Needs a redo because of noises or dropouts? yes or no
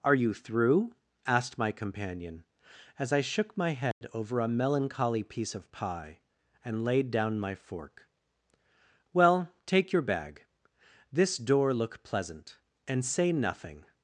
yes